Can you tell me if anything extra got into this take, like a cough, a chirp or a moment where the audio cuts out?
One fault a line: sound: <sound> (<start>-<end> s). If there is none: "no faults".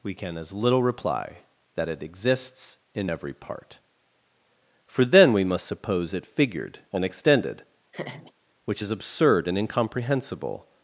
sound: laugh (7.9-8.3 s)